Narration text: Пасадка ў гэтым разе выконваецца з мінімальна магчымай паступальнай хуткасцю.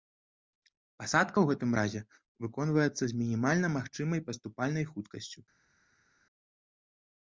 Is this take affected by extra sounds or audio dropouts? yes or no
no